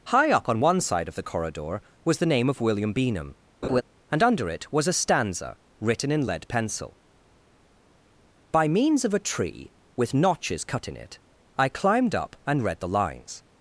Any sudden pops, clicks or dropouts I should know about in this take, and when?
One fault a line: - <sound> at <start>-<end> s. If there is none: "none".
- laugh at 3.6-3.8 s